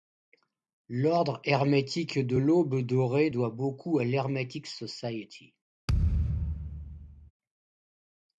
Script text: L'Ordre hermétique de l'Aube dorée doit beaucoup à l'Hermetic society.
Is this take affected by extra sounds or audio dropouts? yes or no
yes